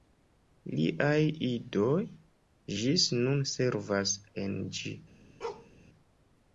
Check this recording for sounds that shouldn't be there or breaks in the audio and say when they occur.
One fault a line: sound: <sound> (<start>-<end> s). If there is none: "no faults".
sound: bark (5.4-5.7 s)